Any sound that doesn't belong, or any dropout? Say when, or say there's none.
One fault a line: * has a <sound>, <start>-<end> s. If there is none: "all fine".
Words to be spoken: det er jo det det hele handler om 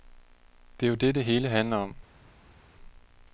all fine